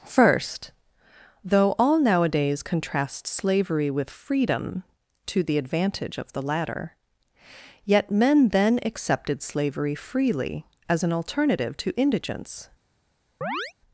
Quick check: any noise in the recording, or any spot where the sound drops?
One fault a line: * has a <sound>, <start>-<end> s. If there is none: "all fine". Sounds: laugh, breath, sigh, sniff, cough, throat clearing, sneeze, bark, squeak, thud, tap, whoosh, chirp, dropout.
* has a chirp, 13.4-13.7 s